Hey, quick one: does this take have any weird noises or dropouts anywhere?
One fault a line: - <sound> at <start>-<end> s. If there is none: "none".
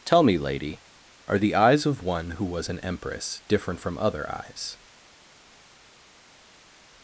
none